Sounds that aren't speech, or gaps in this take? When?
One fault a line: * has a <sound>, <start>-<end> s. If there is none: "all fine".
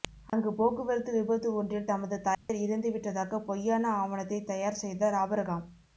* has a dropout, 2.3-2.5 s